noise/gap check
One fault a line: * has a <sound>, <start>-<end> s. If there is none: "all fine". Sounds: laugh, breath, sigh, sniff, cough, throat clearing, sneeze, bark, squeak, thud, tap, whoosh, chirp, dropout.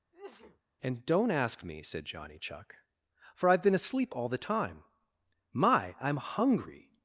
* has a sneeze, 0.1-0.6 s